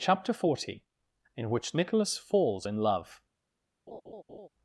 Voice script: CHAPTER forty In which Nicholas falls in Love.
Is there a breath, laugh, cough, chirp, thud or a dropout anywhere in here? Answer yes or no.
yes